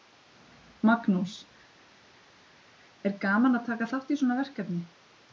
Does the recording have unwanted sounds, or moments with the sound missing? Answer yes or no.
no